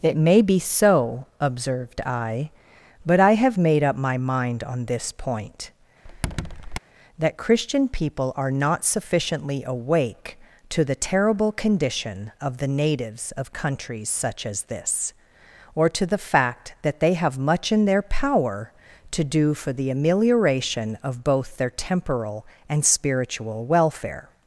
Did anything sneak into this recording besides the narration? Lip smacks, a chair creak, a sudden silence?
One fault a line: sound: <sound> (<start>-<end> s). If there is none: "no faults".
sound: squeak (6.0-6.8 s)